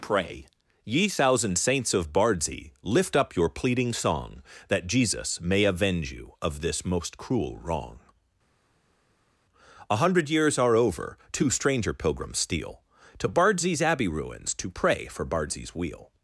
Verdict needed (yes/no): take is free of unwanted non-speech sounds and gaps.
yes